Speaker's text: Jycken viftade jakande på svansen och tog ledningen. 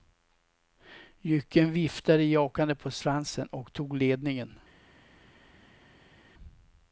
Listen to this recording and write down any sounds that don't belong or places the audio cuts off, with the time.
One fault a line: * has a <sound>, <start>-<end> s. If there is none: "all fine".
all fine